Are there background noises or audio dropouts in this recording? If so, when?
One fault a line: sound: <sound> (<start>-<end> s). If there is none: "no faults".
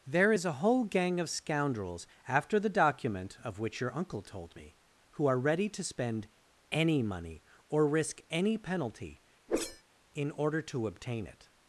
sound: whoosh (9.5-9.8 s)